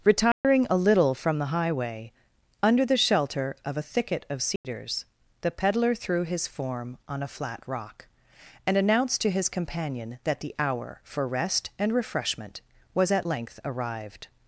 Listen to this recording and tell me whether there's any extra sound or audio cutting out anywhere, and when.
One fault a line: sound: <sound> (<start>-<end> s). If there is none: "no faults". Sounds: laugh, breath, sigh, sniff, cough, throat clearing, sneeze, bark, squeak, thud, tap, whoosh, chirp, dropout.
sound: dropout (0.3-0.4 s)
sound: dropout (4.6-4.6 s)